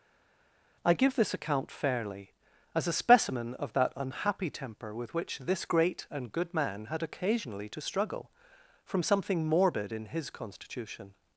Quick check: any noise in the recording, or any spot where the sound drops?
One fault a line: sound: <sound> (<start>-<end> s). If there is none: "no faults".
no faults